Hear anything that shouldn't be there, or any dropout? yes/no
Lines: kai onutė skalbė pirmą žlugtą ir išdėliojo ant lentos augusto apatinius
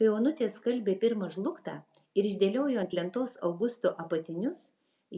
no